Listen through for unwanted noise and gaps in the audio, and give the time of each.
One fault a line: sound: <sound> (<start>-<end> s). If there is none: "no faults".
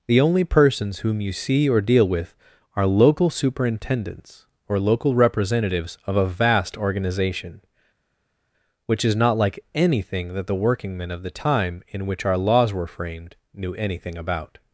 no faults